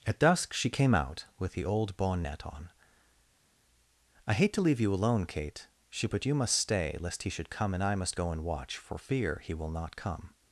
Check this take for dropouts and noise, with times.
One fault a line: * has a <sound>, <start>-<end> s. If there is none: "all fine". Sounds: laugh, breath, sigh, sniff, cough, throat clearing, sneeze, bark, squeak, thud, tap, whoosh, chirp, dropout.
all fine